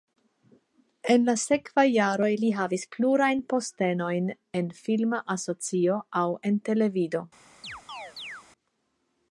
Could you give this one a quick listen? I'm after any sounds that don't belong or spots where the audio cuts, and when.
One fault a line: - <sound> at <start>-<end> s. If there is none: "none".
- chirp at 7.6-8.4 s